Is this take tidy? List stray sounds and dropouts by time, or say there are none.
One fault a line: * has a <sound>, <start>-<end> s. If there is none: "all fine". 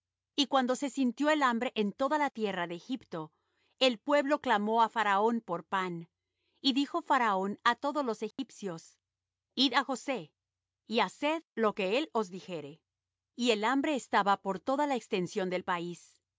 * has a dropout, 8.3-8.4 s